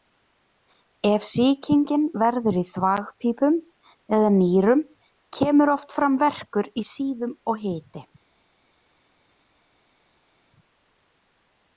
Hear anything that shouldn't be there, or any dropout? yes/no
no